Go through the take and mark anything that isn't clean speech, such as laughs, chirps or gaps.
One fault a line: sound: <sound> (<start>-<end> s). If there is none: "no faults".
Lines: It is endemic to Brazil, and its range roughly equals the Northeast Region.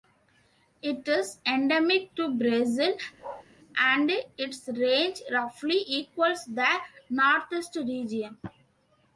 sound: bark (3.2-3.5 s)